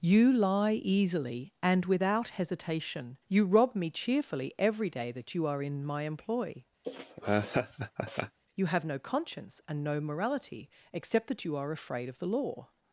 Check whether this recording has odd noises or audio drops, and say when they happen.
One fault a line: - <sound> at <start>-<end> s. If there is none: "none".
- laugh at 6.8-8.4 s